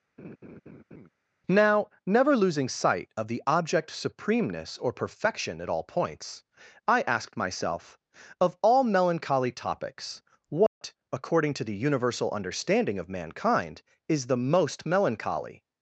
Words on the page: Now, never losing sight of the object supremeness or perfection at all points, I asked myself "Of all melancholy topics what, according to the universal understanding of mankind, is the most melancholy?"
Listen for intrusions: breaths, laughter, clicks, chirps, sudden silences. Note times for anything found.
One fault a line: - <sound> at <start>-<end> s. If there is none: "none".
- laugh at 0.2-1.1 s
- dropout at 10.7-10.8 s